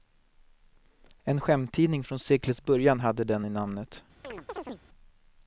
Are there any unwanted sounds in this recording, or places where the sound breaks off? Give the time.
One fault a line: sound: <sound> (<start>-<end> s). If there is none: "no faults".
sound: chirp (4.2-4.8 s)